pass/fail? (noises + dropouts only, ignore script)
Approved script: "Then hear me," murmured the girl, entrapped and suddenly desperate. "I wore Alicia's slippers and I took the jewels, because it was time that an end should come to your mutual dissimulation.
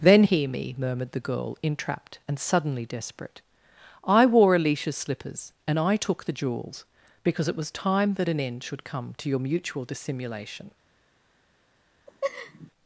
fail